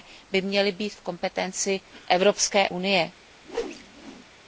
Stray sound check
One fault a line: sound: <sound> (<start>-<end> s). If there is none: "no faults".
sound: whoosh (3.4-4.3 s)